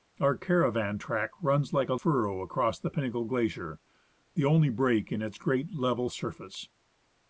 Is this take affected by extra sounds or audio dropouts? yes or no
no